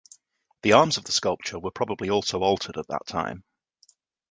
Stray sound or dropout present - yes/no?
no